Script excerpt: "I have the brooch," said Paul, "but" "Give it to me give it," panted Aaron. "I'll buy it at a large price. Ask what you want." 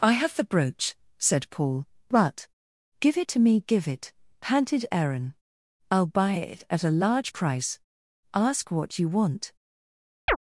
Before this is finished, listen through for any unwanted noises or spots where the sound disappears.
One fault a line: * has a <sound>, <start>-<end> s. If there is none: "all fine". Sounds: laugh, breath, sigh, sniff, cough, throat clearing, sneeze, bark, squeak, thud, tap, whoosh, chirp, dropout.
* has a chirp, 10.3-10.4 s